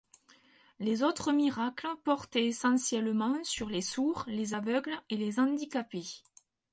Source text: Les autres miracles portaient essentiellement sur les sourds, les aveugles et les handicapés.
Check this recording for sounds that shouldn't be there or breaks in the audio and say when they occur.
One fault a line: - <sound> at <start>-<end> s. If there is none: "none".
none